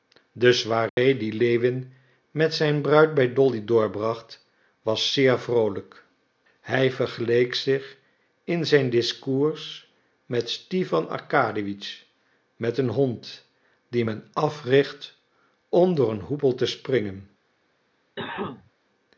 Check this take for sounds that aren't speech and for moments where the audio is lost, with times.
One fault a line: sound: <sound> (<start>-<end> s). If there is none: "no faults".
sound: dropout (0.9-1.0 s)
sound: cough (18.2-18.7 s)